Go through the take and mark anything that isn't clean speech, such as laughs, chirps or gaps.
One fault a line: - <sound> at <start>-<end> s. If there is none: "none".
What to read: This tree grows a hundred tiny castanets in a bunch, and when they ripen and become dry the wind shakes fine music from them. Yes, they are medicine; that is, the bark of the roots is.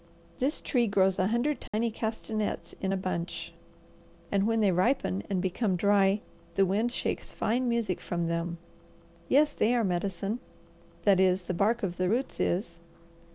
- dropout at 1.7-1.7 s